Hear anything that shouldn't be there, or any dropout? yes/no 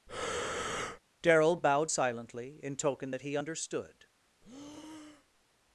yes